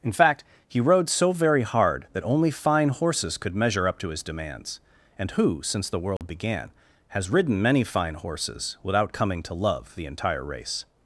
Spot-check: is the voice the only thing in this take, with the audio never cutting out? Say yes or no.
no